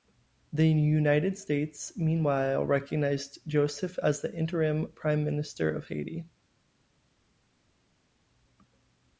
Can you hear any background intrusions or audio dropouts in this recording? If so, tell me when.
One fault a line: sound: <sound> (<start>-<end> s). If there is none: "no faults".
no faults